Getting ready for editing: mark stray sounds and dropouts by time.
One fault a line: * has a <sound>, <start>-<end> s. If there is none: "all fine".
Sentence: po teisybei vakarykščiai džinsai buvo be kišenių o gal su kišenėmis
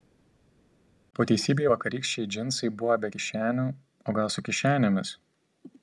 all fine